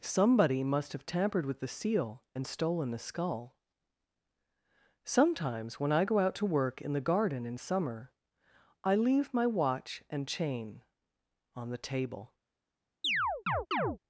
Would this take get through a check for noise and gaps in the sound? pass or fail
fail